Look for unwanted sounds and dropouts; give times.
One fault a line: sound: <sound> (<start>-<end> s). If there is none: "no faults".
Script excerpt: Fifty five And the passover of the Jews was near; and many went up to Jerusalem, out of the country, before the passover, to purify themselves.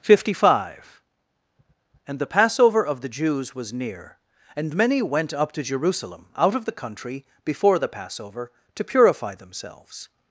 no faults